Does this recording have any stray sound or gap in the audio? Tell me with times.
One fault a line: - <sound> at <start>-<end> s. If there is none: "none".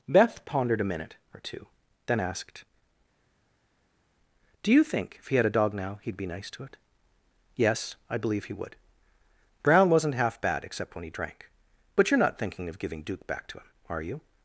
none